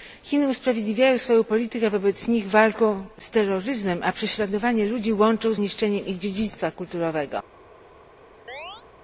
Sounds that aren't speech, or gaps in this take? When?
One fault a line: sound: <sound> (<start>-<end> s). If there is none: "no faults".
sound: chirp (8.5-8.9 s)